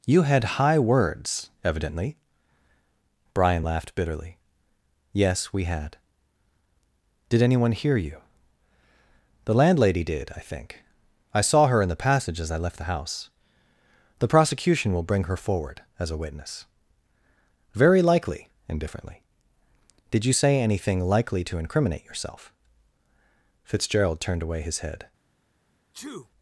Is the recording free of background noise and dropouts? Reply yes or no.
no